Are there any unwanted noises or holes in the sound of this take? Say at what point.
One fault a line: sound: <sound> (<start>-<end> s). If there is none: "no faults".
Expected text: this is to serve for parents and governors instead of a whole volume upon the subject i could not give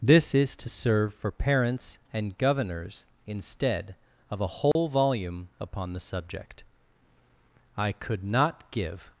sound: dropout (4.7-4.8 s)